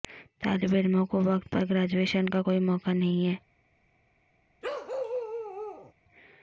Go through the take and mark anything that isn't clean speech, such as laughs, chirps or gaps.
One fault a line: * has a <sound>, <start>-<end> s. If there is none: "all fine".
* has a bark, 4.6-5.9 s